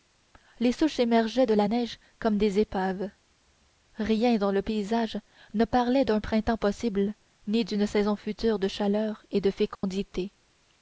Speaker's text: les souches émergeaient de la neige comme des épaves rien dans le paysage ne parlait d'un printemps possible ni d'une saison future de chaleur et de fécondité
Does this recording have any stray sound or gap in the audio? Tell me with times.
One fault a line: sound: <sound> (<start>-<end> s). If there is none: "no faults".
sound: dropout (9.7-9.8 s)